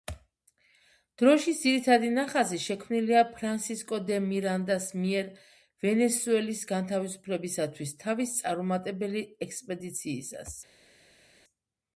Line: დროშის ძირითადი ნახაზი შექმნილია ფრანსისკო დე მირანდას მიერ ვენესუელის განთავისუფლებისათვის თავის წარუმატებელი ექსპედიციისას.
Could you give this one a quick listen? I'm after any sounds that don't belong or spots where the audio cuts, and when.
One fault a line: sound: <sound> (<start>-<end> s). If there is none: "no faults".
no faults